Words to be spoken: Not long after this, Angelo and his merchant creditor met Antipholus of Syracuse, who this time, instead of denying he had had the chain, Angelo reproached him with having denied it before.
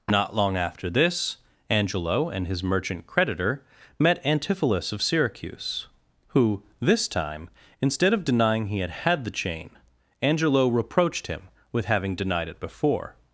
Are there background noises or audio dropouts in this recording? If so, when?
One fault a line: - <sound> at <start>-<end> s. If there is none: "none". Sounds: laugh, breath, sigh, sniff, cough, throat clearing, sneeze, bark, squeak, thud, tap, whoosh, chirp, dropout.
none